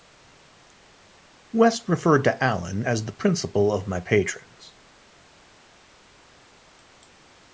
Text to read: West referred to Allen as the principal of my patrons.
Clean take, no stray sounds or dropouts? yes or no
yes